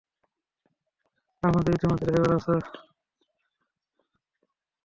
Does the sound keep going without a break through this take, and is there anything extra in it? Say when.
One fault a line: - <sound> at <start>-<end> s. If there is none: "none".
none